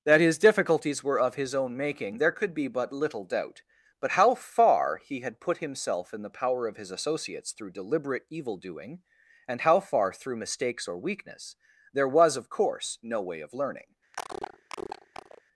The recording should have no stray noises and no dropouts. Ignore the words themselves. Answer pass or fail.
fail